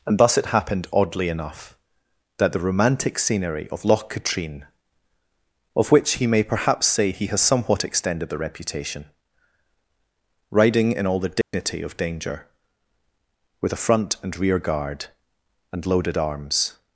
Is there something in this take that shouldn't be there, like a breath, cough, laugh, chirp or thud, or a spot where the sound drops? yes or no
yes